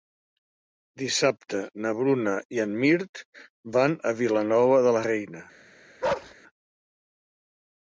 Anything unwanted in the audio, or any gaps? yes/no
yes